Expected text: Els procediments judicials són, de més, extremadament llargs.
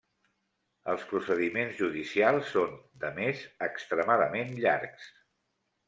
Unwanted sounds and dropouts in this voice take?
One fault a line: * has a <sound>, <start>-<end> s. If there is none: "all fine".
all fine